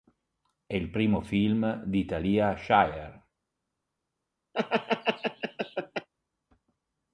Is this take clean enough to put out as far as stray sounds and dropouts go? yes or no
no